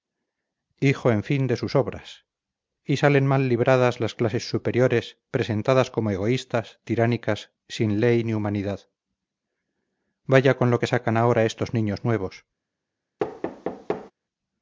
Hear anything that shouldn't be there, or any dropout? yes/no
yes